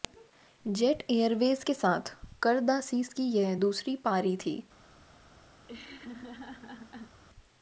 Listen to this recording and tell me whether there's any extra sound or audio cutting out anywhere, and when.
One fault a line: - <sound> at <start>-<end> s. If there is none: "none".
- laugh at 5.6-7.2 s